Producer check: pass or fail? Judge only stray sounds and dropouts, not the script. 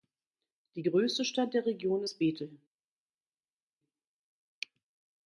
pass